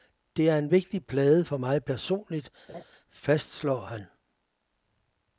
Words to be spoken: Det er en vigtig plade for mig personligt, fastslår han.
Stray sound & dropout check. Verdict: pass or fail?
fail